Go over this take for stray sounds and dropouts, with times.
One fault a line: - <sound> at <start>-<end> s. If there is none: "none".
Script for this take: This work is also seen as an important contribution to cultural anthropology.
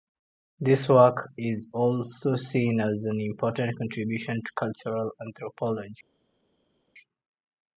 none